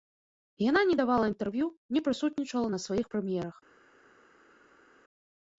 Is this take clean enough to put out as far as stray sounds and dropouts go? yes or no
yes